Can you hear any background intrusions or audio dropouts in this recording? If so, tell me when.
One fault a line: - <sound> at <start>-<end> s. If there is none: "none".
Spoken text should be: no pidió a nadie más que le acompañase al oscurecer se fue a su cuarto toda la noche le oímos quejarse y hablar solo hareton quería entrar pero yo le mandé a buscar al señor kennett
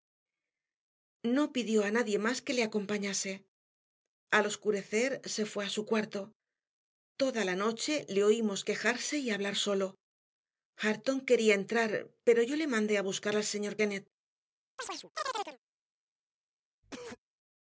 - chirp at 14.8-15.6 s
- cough at 16.8-17.2 s